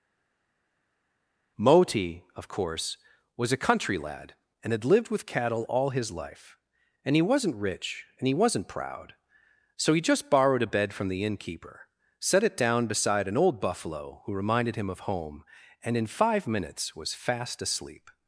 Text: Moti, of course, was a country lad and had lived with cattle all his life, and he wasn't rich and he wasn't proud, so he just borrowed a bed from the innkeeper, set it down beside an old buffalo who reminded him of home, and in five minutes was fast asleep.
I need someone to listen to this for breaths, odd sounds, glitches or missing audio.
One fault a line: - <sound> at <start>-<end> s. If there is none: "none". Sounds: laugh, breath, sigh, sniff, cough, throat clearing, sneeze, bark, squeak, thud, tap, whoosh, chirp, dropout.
none